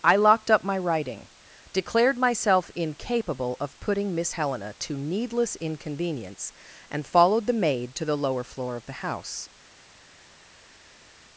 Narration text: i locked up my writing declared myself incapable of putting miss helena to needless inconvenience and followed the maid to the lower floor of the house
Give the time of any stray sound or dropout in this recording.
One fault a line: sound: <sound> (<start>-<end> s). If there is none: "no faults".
no faults